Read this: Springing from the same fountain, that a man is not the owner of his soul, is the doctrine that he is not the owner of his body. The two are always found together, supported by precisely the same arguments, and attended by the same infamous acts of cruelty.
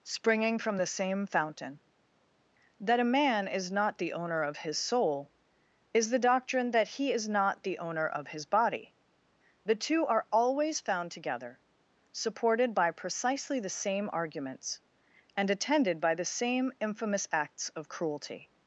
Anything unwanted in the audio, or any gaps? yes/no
no